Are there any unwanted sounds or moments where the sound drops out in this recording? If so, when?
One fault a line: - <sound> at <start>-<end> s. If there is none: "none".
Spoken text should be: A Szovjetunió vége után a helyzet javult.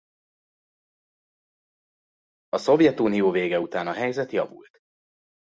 none